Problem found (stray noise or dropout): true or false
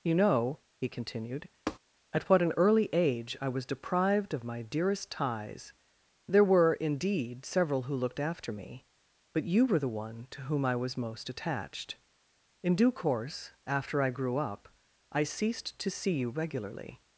true